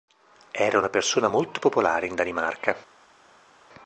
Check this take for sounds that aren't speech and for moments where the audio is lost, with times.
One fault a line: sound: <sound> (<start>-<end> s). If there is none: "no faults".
no faults